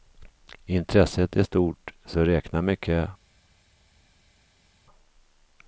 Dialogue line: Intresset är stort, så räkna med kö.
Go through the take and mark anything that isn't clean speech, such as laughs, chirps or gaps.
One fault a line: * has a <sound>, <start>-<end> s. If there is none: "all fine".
all fine